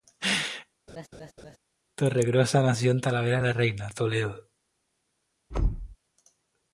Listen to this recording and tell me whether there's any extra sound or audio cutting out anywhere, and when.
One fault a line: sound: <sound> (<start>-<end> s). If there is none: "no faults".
sound: laugh (0.9-1.6 s)
sound: thud (5.5-6.0 s)